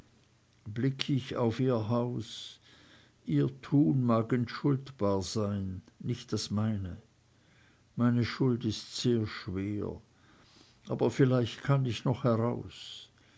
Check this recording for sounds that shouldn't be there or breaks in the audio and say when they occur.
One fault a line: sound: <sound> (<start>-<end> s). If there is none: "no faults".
no faults